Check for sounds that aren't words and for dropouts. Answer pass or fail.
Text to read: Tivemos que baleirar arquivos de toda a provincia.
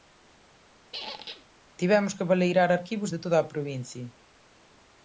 fail